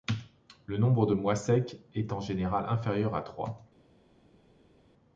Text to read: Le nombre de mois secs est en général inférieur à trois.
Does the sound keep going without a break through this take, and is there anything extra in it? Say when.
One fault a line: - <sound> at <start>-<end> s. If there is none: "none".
none